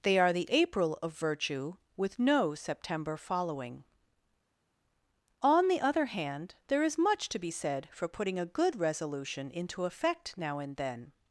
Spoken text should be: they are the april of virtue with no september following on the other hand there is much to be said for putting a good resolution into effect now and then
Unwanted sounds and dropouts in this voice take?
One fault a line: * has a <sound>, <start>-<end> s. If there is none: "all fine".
all fine